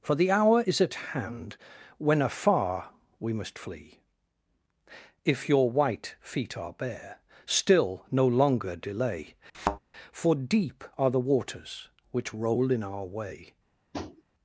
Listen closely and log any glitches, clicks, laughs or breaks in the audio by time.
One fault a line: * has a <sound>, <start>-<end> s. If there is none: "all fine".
* has a thud, 9.5-9.8 s
* has a tap, 13.9-14.2 s